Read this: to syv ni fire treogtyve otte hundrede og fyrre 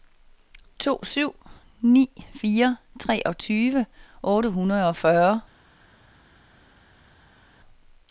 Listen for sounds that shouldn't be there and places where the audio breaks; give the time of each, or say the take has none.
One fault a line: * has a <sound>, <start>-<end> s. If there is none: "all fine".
all fine